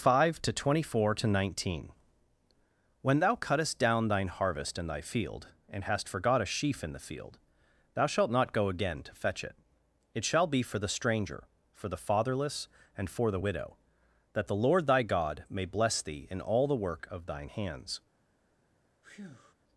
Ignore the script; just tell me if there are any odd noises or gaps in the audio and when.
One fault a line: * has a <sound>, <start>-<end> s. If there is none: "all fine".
* has a breath, 19.0-19.5 s